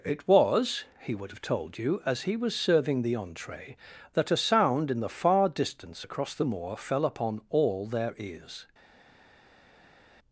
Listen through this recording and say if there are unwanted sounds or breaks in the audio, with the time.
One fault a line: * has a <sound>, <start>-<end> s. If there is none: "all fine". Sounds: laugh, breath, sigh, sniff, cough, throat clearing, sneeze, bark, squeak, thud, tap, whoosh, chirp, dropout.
all fine